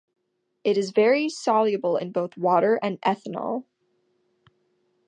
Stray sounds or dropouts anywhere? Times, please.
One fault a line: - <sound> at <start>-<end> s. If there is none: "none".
none